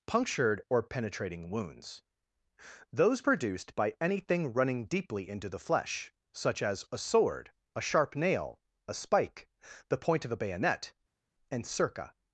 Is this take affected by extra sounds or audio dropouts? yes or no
no